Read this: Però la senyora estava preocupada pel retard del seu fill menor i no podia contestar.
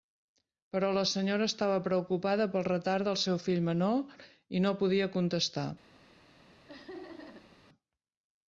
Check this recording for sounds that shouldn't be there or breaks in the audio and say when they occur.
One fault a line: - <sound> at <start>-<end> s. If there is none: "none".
- laugh at 6.7-7.6 s